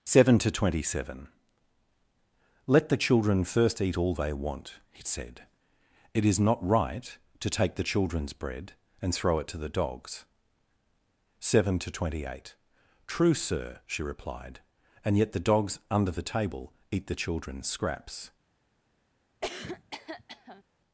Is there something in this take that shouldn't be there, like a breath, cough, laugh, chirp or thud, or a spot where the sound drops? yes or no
yes